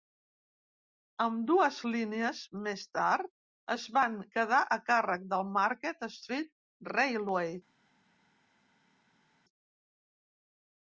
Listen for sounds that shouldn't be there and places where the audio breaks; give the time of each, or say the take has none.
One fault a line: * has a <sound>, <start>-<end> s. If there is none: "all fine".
all fine